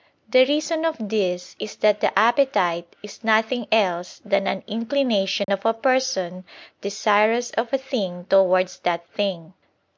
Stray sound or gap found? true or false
true